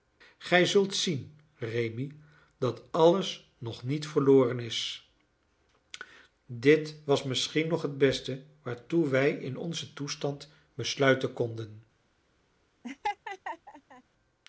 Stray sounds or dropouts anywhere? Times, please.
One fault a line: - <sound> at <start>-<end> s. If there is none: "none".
- laugh at 12.8-14.0 s